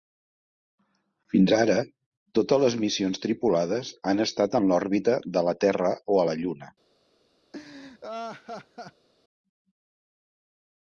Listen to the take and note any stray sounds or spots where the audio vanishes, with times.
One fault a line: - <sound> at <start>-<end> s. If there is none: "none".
- laugh at 7.5-9.1 s